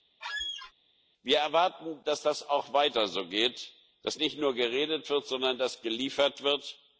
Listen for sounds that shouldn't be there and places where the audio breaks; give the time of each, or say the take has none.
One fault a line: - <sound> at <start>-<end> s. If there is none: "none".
- squeak at 0.2-0.7 s